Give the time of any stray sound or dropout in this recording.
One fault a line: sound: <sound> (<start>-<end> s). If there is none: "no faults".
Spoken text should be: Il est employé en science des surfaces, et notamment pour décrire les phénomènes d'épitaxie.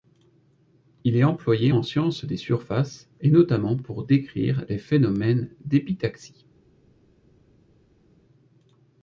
no faults